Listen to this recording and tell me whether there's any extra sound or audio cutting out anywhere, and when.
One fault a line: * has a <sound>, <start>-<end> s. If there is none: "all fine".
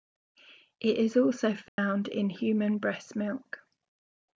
* has a dropout, 1.7-1.8 s